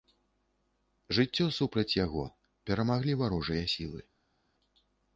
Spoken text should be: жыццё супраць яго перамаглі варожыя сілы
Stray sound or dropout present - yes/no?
no